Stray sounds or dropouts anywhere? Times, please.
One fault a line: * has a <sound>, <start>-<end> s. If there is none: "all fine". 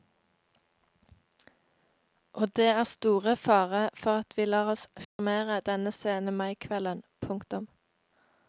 * has a dropout, 5.0-5.2 s